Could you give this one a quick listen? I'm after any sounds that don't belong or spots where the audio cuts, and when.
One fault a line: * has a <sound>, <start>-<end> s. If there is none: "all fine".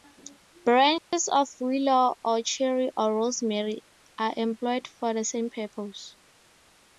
* has a dropout, 1.0-1.1 s